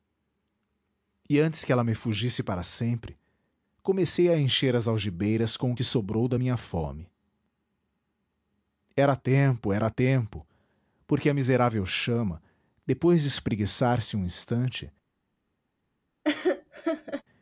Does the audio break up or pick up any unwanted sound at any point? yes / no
yes